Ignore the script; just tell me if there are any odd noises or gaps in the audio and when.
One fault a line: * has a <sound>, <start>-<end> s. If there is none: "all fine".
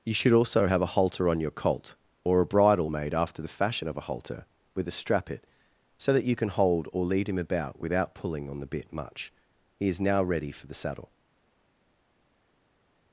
all fine